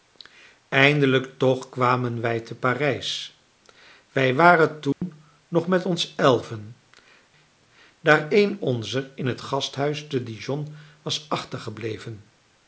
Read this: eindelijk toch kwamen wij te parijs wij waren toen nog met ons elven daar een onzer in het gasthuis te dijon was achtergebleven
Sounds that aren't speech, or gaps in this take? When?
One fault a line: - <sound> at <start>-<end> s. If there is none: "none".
- dropout at 4.9-5.0 s